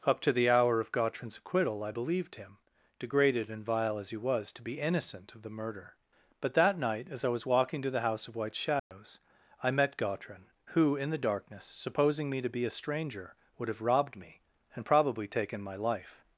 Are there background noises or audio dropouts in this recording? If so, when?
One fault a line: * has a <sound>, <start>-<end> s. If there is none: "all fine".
* has a dropout, 8.8-8.9 s